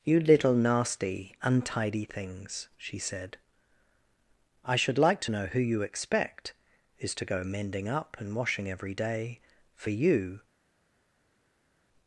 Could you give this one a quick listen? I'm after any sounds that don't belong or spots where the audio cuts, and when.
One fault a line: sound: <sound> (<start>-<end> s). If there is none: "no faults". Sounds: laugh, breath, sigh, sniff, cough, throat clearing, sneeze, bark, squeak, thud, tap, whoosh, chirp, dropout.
no faults